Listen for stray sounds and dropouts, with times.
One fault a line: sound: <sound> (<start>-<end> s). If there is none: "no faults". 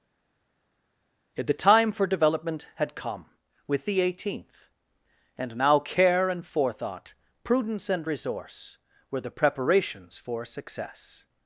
no faults